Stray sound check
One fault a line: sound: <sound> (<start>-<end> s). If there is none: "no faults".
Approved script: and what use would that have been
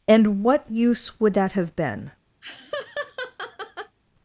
sound: laugh (2.4-4.0 s)